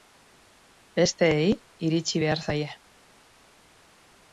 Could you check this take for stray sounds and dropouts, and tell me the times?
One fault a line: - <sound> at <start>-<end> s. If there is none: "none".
none